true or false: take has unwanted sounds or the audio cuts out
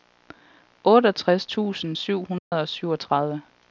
true